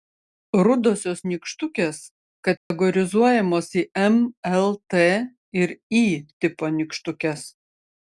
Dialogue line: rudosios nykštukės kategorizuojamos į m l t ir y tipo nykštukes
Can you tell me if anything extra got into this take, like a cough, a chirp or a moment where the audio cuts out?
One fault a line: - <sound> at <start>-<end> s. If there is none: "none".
- dropout at 2.6-2.7 s